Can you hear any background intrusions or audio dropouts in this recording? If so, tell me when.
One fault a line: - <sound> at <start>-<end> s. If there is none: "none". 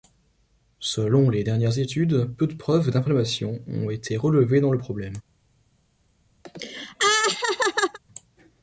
- laugh at 6.5-8.0 s